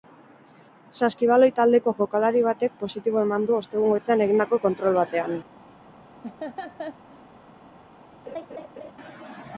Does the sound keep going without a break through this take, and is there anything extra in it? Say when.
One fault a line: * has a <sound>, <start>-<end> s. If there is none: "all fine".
* has a laugh, 6.2-7.3 s
* has a laugh, 8.3-8.9 s